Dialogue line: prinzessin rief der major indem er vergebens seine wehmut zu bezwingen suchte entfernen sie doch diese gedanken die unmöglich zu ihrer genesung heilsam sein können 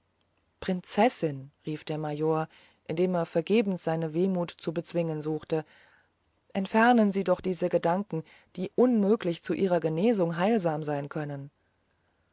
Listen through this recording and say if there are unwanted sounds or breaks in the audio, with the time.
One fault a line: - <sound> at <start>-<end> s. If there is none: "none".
none